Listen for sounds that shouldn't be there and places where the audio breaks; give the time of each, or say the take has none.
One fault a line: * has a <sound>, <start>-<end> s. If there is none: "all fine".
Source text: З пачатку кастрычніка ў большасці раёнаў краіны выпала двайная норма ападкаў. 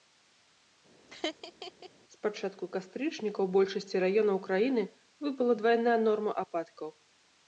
* has a laugh, 1.1-1.9 s